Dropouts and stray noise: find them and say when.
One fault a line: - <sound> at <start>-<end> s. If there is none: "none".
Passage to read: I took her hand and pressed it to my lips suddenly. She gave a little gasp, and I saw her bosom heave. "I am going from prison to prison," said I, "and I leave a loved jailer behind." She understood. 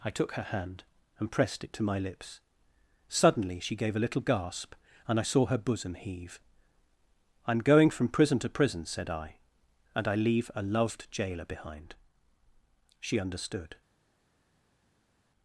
none